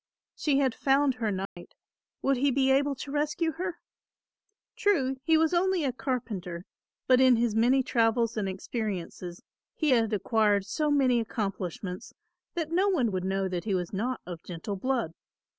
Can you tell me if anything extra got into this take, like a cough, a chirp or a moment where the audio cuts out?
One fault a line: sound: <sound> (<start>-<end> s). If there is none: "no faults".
sound: dropout (1.5-1.6 s)